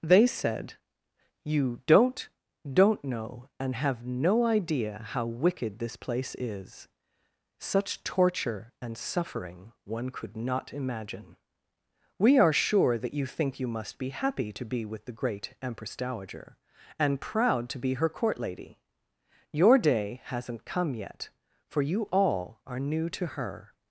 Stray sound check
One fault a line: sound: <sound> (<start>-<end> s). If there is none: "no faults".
no faults